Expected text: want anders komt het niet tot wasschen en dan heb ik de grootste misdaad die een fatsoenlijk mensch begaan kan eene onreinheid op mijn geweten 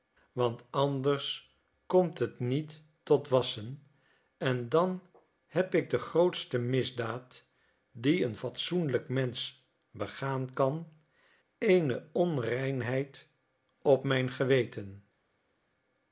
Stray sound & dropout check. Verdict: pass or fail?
pass